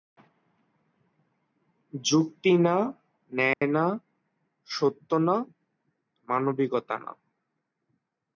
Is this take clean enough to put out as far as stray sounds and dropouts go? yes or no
no